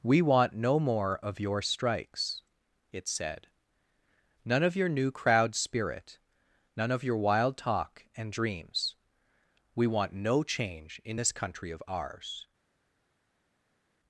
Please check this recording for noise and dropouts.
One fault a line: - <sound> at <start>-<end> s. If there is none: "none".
none